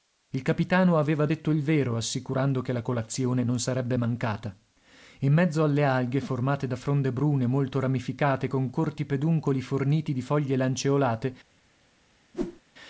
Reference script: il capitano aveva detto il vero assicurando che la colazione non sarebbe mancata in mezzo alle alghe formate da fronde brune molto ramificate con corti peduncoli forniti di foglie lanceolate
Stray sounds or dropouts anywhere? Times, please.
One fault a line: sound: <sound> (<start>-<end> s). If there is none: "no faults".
sound: whoosh (12.3-12.6 s)